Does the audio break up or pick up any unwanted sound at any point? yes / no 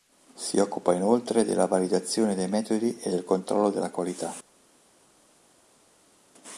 no